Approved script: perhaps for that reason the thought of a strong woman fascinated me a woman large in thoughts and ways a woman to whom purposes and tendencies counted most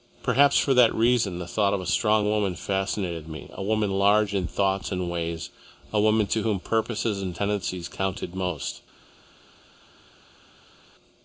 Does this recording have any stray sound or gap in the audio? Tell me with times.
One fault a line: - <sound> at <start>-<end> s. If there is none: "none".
none